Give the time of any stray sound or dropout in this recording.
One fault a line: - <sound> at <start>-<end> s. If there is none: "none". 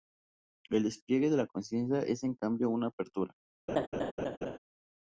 - laugh at 3.7-4.6 s